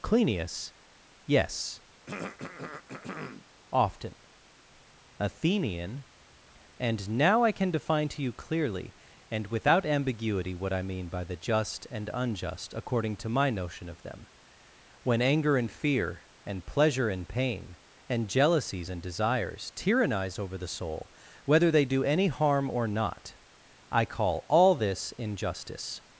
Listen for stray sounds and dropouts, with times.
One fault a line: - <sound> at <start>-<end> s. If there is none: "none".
- throat clearing at 2.1-3.5 s